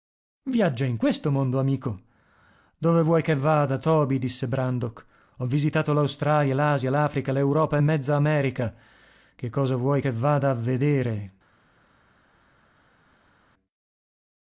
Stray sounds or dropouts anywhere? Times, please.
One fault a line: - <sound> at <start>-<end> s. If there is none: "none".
none